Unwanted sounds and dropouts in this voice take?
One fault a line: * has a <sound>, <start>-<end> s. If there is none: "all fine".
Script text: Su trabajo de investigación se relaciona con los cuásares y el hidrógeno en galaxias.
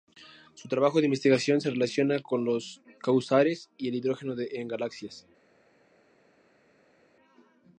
all fine